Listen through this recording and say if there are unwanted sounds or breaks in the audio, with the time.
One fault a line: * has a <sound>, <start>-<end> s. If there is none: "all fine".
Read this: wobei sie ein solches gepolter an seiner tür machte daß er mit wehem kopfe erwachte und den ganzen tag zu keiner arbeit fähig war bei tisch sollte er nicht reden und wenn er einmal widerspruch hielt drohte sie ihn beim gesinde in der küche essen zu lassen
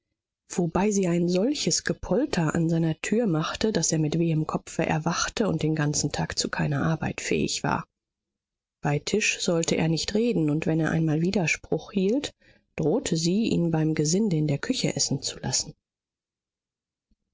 all fine